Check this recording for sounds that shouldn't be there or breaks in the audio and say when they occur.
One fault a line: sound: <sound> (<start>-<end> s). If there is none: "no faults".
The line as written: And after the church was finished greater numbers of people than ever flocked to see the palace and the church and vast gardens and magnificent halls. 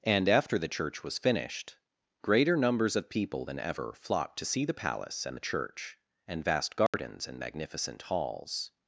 sound: dropout (6.9-6.9 s)